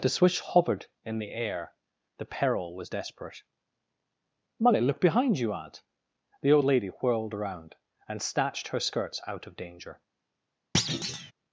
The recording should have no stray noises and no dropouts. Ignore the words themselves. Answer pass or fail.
fail